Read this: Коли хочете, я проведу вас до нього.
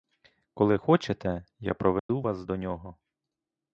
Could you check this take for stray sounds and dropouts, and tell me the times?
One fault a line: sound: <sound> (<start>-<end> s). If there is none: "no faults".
sound: dropout (2.0-2.1 s)